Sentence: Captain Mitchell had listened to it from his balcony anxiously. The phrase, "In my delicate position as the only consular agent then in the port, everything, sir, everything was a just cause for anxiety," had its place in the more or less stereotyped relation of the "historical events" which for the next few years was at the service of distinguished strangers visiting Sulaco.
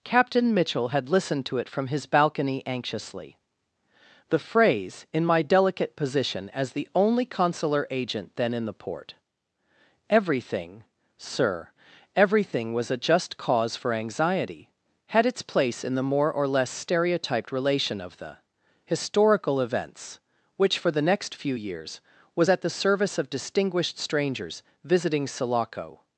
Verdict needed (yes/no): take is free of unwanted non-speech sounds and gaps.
yes